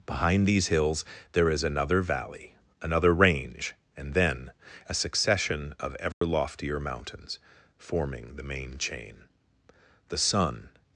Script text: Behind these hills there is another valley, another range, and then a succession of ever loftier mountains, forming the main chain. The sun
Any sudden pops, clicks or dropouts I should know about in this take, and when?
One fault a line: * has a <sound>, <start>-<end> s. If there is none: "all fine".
* has a dropout, 6.1-6.2 s